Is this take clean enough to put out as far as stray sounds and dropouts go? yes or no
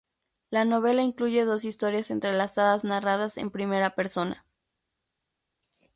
yes